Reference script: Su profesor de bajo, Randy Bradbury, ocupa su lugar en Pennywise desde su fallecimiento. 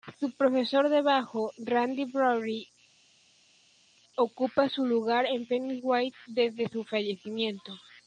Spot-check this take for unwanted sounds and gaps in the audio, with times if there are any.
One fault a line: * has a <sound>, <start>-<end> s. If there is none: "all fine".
all fine